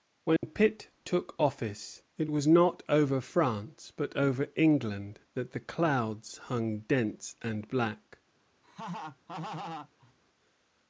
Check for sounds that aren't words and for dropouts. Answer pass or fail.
fail